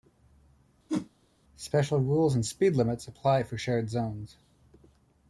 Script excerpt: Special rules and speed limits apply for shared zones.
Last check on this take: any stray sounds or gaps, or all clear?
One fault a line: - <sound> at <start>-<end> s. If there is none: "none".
- whoosh at 0.9-1.1 s